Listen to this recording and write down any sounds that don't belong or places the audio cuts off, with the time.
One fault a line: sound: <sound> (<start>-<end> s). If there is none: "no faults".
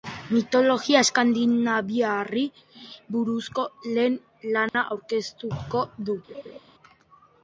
sound: dropout (4.7-4.7 s)
sound: laugh (6.3-6.6 s)